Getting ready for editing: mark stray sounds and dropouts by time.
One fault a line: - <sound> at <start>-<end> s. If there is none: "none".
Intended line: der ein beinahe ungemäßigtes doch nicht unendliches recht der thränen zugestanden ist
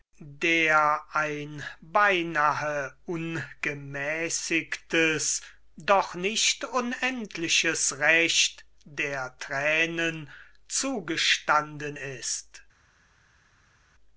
none